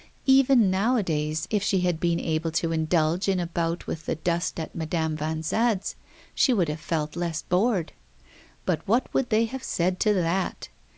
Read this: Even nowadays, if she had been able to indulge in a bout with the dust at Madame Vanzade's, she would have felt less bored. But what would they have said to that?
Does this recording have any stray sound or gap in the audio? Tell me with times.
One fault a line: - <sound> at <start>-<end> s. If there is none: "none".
none